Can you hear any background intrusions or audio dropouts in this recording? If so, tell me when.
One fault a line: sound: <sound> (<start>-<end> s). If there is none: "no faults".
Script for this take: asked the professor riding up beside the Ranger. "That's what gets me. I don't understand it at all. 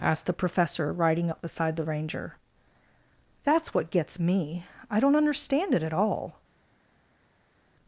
no faults